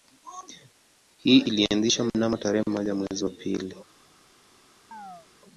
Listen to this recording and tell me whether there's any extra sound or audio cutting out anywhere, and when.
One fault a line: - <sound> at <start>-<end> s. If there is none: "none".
- chirp at 4.9-5.3 s